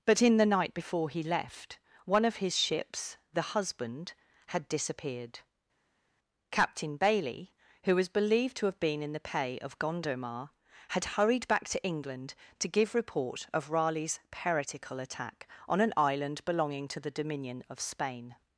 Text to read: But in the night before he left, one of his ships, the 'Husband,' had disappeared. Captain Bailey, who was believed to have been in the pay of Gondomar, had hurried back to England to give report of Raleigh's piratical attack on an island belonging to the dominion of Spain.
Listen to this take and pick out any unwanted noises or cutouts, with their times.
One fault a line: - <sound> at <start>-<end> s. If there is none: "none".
none